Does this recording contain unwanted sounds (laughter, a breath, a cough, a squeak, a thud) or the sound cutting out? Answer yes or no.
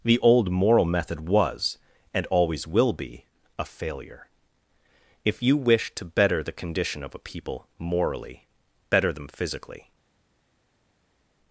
no